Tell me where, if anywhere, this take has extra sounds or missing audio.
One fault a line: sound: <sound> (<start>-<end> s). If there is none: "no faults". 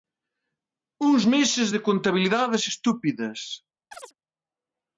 sound: chirp (3.9-4.1 s)